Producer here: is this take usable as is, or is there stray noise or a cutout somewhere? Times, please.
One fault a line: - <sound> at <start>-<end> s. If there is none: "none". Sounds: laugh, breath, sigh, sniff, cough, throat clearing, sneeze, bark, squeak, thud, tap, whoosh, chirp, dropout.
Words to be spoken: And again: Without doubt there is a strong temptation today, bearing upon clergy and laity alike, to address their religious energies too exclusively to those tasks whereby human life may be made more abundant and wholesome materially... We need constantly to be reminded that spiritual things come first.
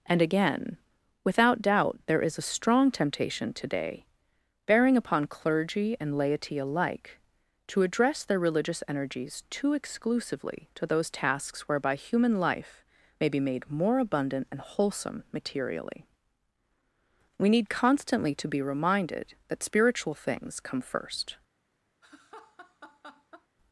- laugh at 22.0-23.5 s